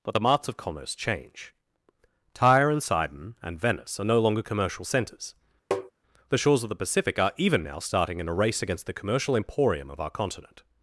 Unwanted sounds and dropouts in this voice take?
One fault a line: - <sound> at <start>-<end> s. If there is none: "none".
- tap at 5.7-5.9 s